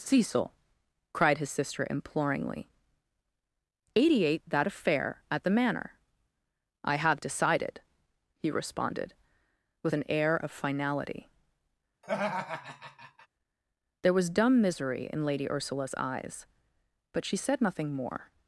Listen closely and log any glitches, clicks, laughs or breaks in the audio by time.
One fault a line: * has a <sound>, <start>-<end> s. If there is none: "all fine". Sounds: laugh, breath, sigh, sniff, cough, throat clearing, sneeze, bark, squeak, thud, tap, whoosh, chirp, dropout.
* has a laugh, 12.0-13.3 s